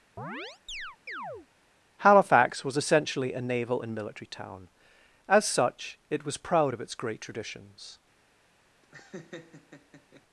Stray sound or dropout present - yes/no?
yes